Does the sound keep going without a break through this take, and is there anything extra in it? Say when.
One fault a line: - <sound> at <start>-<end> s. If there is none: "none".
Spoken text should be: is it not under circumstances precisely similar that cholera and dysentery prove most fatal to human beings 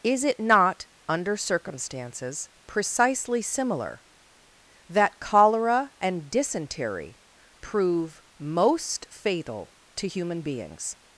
none